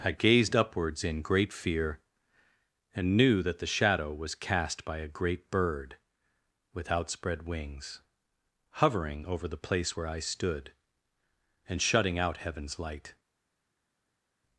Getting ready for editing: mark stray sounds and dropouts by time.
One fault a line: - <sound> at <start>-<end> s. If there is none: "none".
none